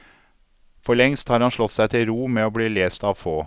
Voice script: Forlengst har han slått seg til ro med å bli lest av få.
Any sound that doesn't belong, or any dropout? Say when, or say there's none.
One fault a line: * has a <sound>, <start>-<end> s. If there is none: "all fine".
all fine